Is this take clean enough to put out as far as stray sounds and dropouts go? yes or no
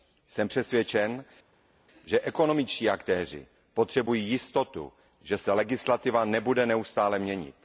yes